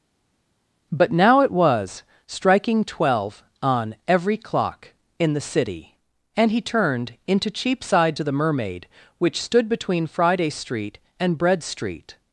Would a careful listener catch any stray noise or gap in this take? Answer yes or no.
no